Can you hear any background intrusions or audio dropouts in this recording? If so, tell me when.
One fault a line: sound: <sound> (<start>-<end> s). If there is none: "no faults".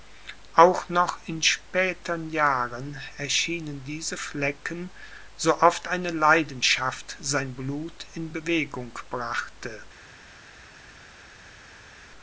no faults